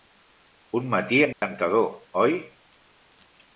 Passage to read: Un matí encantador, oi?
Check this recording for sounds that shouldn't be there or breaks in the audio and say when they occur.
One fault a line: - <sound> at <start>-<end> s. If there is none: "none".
- dropout at 1.3-1.4 s